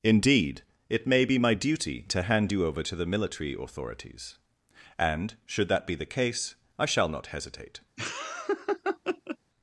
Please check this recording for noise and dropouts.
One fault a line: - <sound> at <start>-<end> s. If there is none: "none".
- laugh at 8.0-9.4 s